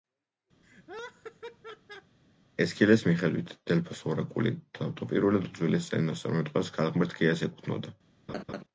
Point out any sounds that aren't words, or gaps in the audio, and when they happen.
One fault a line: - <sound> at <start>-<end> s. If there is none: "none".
- laugh at 0.6-2.2 s
- laugh at 8.3-8.6 s